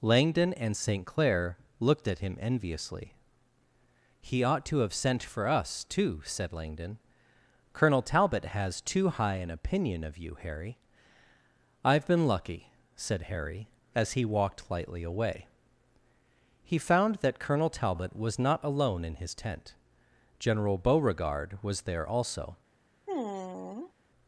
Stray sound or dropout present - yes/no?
yes